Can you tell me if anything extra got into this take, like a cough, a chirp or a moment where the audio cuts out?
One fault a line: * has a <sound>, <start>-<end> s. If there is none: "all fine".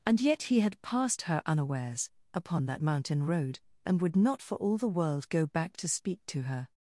all fine